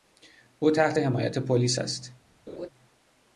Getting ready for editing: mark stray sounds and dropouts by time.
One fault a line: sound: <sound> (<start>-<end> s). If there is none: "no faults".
sound: laugh (2.5-2.7 s)